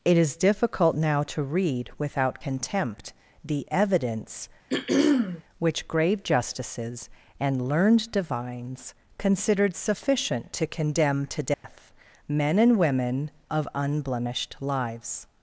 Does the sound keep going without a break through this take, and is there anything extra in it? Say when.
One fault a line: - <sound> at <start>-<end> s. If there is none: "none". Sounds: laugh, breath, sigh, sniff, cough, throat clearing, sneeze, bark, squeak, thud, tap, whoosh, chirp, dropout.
- throat clearing at 4.7-5.4 s
- dropout at 11.5-11.6 s